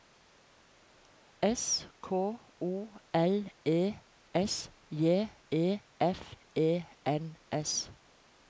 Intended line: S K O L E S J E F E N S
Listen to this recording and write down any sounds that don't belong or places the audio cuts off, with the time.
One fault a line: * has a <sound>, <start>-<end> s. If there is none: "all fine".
all fine